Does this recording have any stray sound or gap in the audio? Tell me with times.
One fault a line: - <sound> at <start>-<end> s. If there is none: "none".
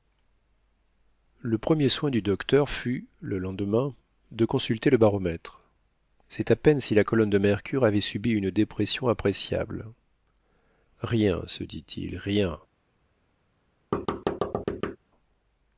- thud at 13.9-15.0 s